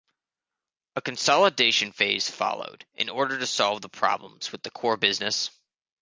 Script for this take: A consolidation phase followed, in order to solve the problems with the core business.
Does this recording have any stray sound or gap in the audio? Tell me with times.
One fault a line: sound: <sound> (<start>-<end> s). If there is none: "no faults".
no faults